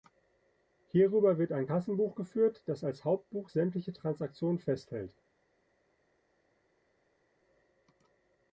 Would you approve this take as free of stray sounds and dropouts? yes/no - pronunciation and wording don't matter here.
yes